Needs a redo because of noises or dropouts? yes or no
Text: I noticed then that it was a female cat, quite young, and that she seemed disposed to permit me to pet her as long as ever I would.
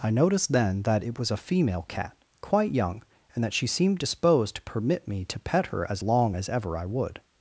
no